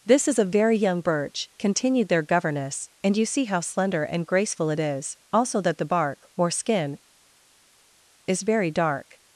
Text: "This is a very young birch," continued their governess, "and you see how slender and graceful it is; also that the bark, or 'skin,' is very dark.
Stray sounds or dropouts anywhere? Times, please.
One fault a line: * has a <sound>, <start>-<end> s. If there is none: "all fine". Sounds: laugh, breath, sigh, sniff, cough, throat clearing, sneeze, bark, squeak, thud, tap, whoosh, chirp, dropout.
all fine